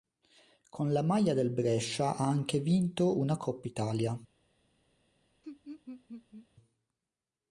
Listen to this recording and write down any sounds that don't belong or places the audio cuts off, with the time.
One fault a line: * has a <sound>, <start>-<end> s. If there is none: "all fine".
* has a laugh, 5.4-6.5 s